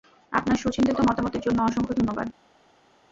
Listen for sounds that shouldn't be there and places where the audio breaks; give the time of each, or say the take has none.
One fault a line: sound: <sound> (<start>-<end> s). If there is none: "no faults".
no faults